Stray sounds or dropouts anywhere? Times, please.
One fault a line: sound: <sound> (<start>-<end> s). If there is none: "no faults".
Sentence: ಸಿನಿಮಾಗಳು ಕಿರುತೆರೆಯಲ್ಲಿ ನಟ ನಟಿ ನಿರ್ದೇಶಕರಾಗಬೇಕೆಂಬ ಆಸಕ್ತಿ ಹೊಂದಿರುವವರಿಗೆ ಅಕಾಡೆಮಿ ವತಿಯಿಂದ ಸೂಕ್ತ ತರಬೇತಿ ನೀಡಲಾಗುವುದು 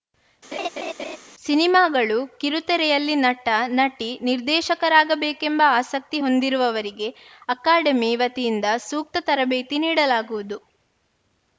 sound: laugh (0.5-1.2 s)